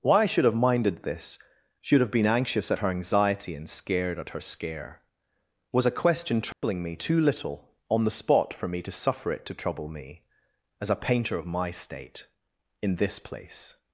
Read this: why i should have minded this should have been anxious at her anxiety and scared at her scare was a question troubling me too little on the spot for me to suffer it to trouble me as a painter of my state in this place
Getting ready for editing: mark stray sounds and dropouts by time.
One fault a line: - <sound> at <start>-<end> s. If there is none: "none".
- dropout at 6.5-6.6 s